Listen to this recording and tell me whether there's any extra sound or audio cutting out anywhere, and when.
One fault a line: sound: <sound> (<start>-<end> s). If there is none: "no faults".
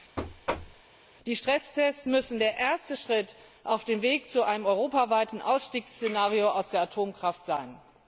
sound: thud (0.2-0.8 s)